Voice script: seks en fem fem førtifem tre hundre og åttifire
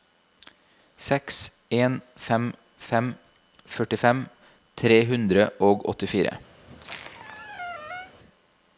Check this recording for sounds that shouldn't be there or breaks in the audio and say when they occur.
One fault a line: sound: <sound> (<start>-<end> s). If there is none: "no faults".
sound: squeak (6.6-8.1 s)